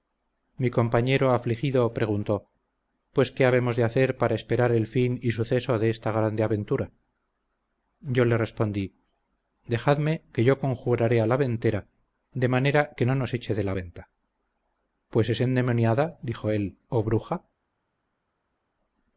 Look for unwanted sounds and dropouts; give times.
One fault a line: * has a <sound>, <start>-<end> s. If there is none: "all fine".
all fine